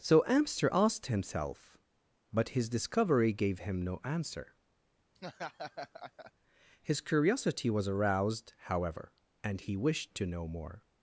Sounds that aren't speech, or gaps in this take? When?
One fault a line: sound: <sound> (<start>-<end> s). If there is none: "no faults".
sound: laugh (5.2-6.3 s)